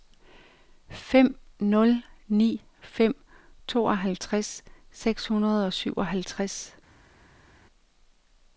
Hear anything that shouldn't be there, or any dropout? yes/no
no